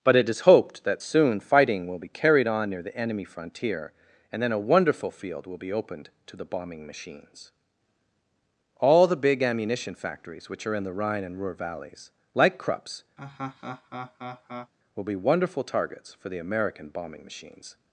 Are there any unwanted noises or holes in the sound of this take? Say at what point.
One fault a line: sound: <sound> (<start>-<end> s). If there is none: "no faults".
sound: laugh (13.2-14.7 s)